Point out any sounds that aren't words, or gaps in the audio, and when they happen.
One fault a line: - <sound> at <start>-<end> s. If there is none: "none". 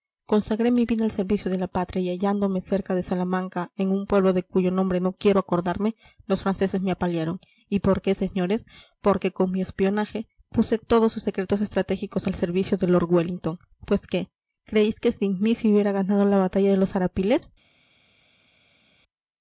none